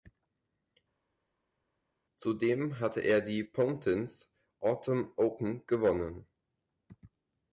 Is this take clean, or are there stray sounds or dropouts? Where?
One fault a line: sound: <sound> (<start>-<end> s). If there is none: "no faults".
no faults